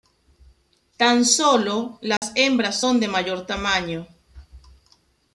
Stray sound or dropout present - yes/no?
yes